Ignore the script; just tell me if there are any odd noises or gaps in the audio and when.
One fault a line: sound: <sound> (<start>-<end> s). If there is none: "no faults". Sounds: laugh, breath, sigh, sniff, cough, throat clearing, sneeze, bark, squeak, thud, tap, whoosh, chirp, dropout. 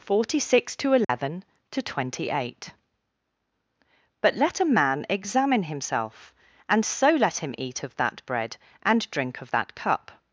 sound: dropout (1.0-1.1 s)